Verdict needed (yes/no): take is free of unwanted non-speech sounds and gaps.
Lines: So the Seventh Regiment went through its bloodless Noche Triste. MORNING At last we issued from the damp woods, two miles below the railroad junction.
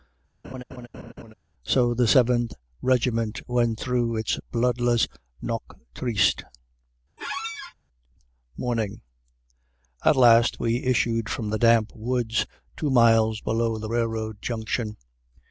no